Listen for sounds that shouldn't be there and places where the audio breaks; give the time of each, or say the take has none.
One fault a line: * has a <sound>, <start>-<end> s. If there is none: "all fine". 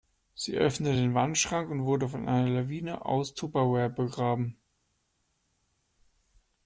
all fine